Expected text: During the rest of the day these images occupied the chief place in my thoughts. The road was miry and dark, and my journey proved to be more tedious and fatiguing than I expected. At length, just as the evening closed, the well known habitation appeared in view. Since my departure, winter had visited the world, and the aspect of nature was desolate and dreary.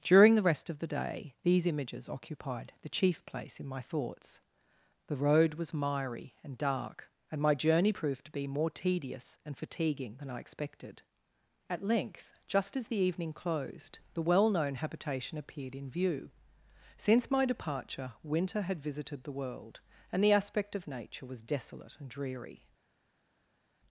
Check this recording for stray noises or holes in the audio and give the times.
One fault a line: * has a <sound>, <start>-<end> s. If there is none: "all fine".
all fine